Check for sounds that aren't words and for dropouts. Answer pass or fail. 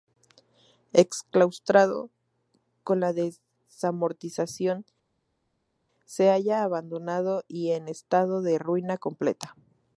pass